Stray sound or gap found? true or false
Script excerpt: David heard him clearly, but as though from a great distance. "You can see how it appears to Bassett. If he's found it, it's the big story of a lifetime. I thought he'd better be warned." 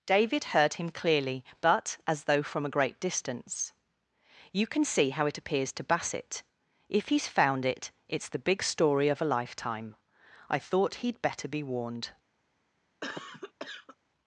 true